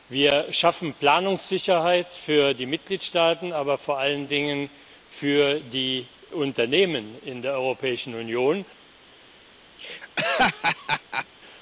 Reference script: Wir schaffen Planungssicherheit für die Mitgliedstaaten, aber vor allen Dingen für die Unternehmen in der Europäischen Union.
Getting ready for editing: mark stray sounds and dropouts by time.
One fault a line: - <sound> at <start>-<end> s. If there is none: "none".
- laugh at 9.8-11.3 s